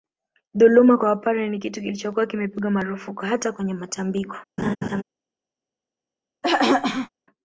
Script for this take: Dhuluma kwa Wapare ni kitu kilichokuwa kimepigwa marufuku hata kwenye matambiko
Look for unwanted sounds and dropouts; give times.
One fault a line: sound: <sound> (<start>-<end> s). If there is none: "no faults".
sound: laugh (4.6-5.0 s)
sound: throat clearing (6.4-7.1 s)